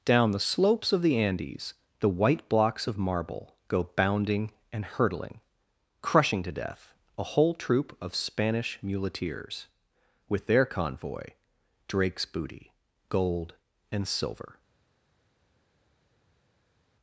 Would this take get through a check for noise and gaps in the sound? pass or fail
pass